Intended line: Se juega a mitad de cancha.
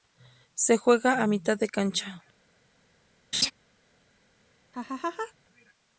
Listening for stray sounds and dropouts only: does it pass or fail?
fail